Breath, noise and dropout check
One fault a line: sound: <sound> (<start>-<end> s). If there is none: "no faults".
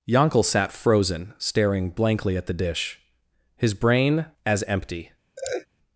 sound: laugh (5.4-5.7 s)